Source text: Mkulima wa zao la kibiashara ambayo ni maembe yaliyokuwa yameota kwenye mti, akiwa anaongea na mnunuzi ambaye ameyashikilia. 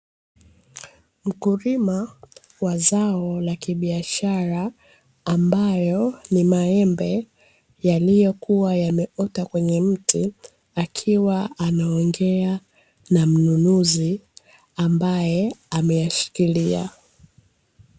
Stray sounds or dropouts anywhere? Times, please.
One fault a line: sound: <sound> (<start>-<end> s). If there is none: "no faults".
no faults